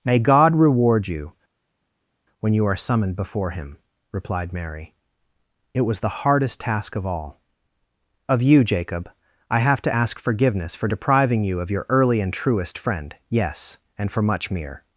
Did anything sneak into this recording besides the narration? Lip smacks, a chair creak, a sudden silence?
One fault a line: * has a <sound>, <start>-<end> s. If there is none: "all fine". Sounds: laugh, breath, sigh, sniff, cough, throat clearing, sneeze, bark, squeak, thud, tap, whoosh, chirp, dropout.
all fine